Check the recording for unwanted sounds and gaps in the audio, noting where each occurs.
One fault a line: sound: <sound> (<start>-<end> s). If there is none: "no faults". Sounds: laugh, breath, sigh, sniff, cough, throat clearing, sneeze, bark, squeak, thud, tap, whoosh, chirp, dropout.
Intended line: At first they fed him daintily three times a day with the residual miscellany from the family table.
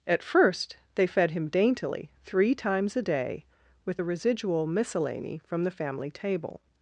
no faults